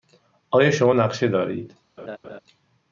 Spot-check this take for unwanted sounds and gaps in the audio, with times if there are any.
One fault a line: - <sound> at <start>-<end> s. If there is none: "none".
- laugh at 2.0-2.4 s